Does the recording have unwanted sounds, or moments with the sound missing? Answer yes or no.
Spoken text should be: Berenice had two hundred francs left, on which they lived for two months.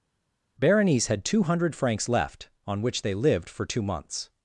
no